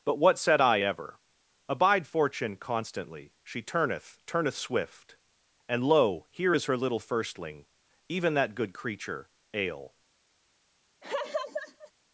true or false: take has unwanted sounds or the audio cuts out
true